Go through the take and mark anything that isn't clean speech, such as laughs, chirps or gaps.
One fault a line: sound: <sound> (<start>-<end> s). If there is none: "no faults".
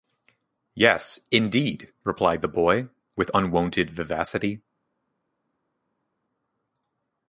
no faults